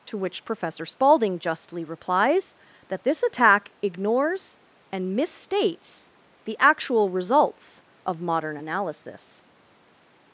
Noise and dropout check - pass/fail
pass